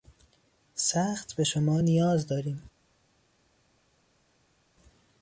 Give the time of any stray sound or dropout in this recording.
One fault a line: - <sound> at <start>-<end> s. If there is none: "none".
none